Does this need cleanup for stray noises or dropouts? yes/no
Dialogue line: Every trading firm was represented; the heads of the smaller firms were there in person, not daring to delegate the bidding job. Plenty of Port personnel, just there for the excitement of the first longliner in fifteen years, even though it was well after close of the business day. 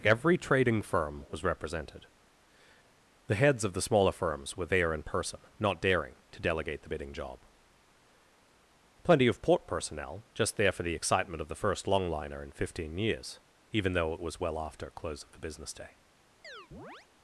yes